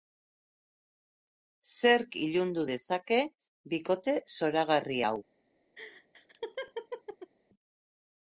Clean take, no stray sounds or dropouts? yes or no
no